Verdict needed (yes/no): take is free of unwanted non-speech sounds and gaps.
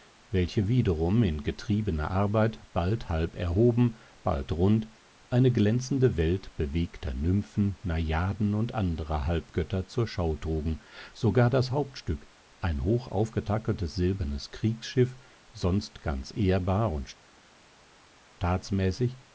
yes